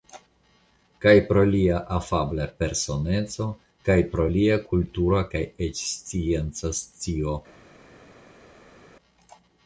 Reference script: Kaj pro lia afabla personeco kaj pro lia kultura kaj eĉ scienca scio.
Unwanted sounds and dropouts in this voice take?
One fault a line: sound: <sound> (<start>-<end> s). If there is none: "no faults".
no faults